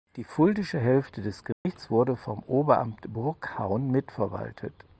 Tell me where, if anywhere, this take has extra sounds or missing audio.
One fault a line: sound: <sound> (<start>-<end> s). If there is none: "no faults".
sound: dropout (1.5-1.7 s)